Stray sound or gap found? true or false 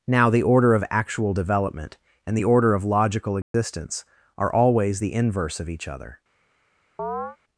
true